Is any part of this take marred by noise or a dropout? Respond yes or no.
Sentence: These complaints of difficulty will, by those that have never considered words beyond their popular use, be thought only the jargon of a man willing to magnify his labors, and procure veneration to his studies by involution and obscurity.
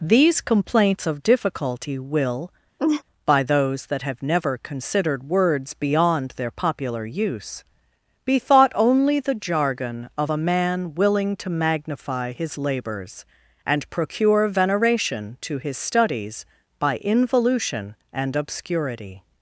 yes